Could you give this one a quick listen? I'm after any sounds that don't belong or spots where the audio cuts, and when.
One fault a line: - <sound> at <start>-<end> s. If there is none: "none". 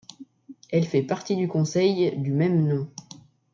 none